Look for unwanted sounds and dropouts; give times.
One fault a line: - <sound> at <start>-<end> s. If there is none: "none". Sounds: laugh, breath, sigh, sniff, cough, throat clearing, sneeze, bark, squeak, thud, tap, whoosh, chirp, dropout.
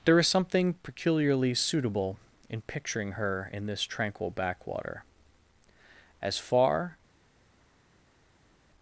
none